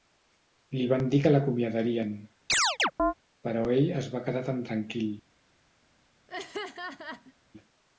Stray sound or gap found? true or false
true